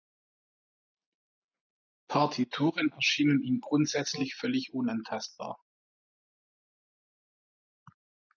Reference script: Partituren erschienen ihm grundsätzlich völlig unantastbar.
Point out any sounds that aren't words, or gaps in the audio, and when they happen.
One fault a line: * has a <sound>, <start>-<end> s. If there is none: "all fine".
all fine